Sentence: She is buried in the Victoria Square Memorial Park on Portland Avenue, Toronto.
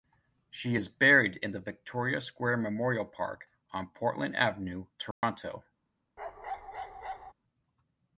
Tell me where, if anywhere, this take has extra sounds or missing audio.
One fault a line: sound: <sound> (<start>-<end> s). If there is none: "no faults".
sound: dropout (5.1-5.2 s)
sound: bark (6.2-7.3 s)